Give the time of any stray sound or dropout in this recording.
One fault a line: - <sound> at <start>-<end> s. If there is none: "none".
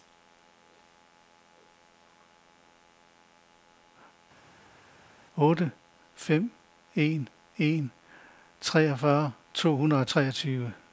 none